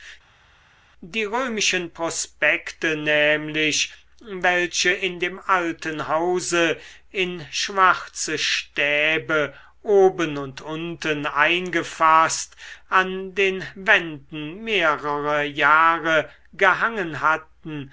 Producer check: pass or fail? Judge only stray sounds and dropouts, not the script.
pass